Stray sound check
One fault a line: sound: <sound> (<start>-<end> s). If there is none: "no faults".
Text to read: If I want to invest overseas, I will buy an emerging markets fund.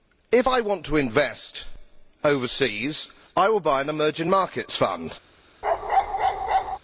sound: bark (5.6-6.8 s)